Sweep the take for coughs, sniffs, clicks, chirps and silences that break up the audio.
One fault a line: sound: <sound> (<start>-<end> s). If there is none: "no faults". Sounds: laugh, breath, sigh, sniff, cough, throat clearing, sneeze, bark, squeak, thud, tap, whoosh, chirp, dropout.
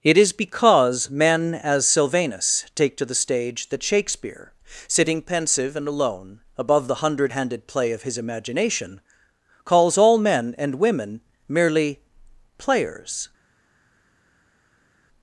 no faults